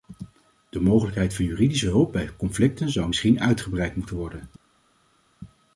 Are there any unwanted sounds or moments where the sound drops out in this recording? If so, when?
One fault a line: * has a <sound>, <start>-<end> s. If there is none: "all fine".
all fine